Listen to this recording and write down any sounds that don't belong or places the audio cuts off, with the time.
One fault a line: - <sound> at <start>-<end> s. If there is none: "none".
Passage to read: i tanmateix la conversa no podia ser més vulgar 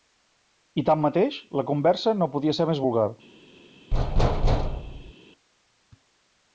- thud at 3.9-5.1 s